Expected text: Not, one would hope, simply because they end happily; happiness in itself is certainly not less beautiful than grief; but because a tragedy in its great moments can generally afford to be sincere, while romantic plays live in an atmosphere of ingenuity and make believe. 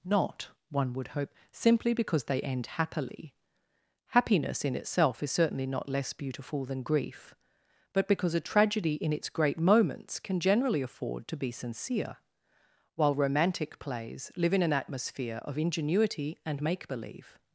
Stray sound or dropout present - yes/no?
no